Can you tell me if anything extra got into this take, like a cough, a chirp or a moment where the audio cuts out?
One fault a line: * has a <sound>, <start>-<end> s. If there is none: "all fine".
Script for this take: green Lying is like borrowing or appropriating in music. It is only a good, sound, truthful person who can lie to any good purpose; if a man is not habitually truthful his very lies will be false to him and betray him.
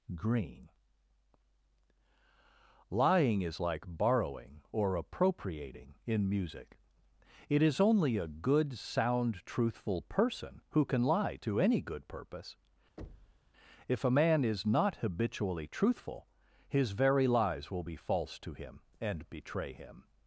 * has a thud, 13.0-13.5 s